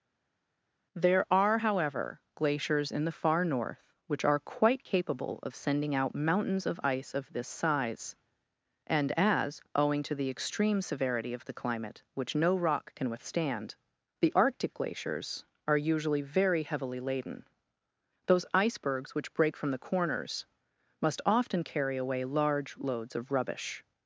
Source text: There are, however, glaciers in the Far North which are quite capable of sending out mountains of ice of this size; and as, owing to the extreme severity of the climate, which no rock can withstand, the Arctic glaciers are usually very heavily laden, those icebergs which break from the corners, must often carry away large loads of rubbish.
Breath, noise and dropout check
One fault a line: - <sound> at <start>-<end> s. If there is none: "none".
none